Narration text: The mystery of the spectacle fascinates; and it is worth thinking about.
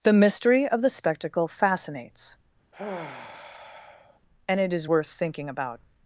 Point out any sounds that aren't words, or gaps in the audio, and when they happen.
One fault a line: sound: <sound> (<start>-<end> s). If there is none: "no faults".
sound: sigh (2.7-4.2 s)